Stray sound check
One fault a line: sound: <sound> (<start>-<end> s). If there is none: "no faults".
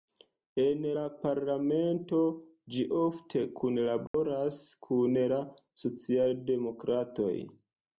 sound: dropout (4.1-4.1 s)